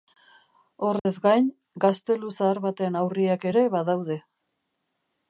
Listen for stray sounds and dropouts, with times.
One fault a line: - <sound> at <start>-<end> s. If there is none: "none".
- dropout at 1.0-1.1 s